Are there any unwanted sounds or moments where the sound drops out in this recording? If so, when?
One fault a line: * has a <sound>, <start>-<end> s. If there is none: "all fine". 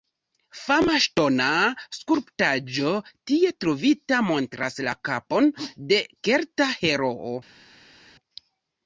all fine